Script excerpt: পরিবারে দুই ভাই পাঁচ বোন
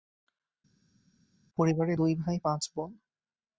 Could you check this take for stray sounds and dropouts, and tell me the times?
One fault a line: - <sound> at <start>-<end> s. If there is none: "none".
none